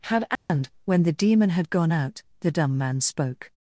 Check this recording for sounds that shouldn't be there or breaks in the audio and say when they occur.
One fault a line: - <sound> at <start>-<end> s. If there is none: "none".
- dropout at 0.4-0.5 s